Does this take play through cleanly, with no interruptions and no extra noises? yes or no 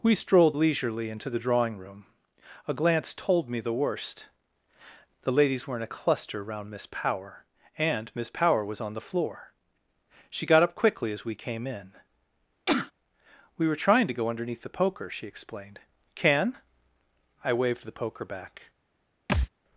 no